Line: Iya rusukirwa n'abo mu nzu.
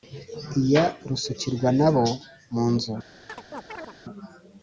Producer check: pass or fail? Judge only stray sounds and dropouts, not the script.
fail